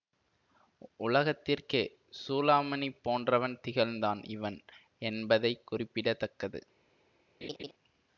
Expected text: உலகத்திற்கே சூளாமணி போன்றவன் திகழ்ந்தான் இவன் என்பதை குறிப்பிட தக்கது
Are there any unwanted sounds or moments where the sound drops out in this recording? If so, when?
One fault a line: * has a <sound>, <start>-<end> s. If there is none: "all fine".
* has a laugh, 7.4-7.7 s